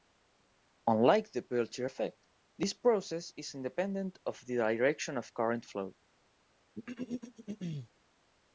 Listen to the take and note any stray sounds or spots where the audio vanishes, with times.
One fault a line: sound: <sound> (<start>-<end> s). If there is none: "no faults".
sound: throat clearing (6.8-7.9 s)